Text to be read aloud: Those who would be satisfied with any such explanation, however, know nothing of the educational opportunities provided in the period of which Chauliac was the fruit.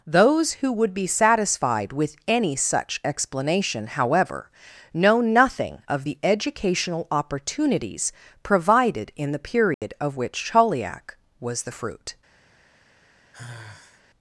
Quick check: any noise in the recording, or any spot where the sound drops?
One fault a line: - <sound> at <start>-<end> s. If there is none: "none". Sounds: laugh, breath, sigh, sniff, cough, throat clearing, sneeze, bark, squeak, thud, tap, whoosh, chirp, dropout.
- dropout at 9.7-9.8 s
- sigh at 13.3-14.0 s